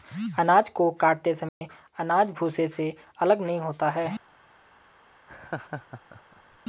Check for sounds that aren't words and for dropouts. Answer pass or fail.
fail